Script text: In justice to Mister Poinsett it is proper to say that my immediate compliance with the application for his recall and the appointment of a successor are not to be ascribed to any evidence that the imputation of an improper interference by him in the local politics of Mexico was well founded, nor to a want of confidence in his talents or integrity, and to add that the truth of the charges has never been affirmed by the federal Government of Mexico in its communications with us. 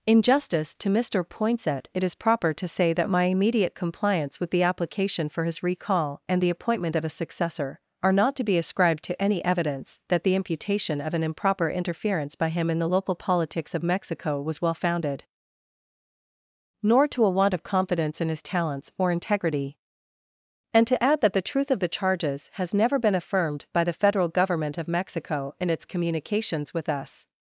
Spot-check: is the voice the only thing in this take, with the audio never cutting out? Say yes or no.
yes